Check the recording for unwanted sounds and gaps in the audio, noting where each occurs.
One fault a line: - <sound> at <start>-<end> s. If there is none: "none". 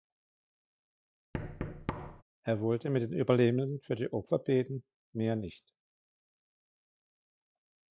- thud at 1.3-2.2 s